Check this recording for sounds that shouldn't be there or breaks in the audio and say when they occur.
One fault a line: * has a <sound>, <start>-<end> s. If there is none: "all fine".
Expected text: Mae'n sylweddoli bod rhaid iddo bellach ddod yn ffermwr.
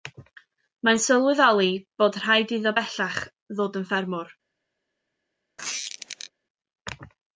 * has a squeak, 5.6-6.3 s